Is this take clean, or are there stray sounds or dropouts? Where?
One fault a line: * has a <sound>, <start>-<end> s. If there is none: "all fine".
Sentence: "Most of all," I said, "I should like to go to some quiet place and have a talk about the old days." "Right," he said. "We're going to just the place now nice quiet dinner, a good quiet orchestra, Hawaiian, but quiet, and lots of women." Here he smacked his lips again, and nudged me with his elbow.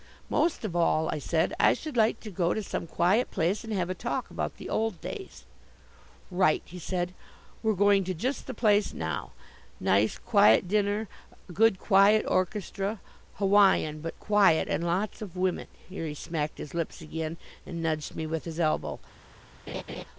* has a laugh, 19.7-20.0 s